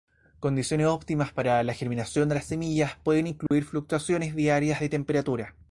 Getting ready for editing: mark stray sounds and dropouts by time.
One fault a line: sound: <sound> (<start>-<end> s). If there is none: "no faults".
sound: dropout (3.5-3.5 s)